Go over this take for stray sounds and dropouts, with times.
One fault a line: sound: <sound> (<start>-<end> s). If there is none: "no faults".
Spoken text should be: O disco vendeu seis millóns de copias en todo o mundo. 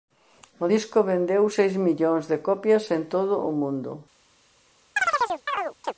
sound: chirp (5.0-5.9 s)